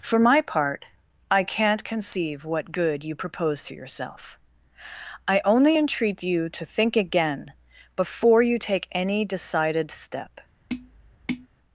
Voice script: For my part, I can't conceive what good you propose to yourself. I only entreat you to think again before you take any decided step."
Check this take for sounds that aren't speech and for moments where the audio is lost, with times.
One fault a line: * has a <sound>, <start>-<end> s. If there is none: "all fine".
* has a tap, 10.7-11.5 s